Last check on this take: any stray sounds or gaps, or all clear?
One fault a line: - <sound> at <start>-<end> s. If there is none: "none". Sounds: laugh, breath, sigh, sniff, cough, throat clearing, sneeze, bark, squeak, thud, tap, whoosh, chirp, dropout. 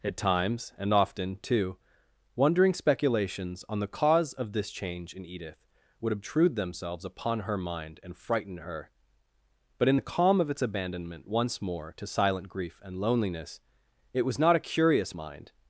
none